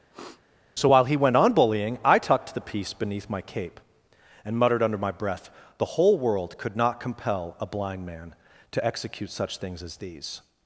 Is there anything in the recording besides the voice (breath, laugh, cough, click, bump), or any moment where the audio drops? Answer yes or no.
yes